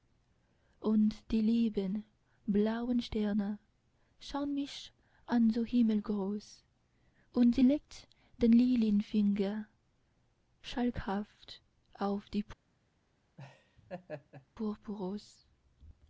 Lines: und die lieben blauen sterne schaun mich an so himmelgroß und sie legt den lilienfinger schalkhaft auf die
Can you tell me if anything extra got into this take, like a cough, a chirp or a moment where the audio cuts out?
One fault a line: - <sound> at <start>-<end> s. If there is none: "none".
- laugh at 13.4-14.5 s